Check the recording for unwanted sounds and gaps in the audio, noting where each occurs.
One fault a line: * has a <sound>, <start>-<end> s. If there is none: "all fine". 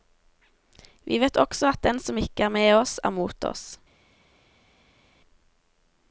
all fine